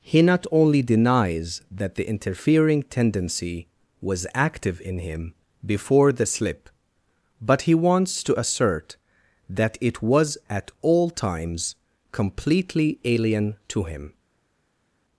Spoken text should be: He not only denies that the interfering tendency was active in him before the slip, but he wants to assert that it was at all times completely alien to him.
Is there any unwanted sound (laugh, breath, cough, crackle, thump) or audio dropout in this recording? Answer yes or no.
no